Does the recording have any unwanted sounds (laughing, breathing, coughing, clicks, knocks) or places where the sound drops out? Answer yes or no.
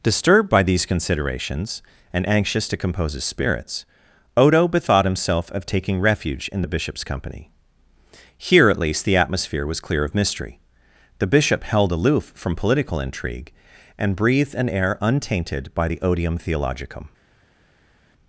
no